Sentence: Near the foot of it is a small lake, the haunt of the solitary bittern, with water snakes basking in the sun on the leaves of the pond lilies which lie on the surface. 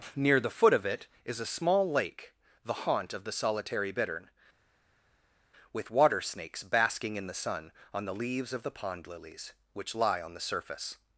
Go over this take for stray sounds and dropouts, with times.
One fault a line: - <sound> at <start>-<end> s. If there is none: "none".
none